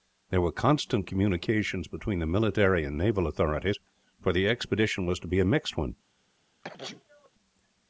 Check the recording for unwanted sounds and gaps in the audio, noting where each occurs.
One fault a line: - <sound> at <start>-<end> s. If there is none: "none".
- sneeze at 6.6-7.3 s